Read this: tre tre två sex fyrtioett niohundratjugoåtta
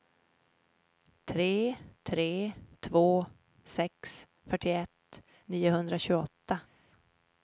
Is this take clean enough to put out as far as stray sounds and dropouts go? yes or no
yes